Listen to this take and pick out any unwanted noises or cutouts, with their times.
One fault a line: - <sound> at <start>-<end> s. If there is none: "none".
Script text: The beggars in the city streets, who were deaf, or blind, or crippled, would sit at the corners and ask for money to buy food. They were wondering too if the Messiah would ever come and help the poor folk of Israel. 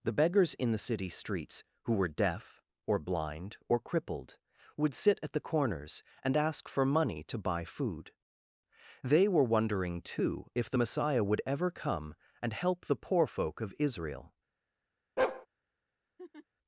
- bark at 15.2-15.5 s
- laugh at 16.2-16.5 s